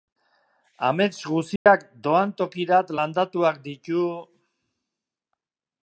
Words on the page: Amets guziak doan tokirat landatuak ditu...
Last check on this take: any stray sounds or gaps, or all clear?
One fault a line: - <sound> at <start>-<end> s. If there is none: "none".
- dropout at 1.6-1.7 s